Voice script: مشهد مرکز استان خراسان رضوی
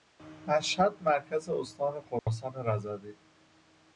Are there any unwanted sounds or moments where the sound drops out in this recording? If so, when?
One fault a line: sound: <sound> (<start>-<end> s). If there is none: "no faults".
sound: dropout (2.2-2.3 s)